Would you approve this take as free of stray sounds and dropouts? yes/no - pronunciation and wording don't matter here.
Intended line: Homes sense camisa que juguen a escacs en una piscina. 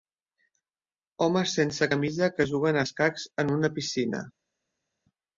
yes